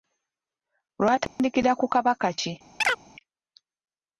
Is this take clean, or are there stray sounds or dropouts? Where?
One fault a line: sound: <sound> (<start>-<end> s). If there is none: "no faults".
sound: dropout (1.3-1.4 s)
sound: chirp (2.8-3.0 s)